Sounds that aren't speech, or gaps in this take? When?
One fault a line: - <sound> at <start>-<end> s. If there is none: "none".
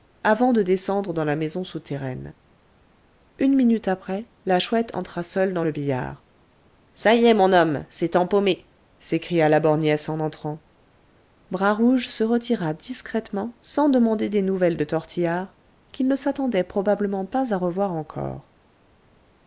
none